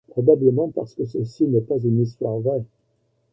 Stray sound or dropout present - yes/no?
no